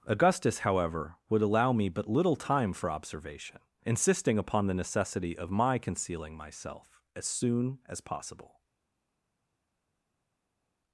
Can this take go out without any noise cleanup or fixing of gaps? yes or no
yes